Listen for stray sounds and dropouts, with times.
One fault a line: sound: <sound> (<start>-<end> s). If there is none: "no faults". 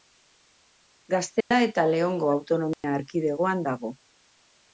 sound: dropout (1.4-1.5 s)
sound: dropout (2.7-2.8 s)